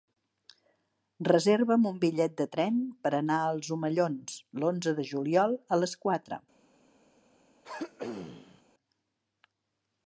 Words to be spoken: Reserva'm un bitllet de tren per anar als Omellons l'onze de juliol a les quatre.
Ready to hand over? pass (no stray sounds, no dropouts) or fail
fail